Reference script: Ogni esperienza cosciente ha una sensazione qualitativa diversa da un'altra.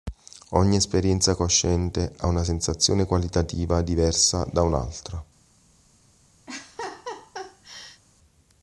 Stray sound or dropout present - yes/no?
yes